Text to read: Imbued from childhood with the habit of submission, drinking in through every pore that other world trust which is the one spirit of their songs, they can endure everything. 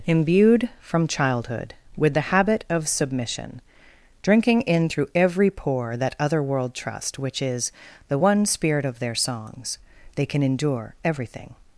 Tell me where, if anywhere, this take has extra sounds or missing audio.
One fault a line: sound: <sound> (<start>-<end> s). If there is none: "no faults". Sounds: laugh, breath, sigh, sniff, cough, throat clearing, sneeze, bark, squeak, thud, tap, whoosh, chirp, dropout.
no faults